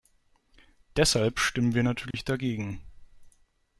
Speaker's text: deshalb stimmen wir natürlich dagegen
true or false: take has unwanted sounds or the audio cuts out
true